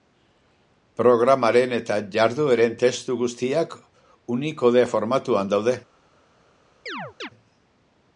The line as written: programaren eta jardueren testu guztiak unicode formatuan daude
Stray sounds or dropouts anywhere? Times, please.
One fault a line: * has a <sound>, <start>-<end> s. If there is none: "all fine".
* has a chirp, 6.9-7.3 s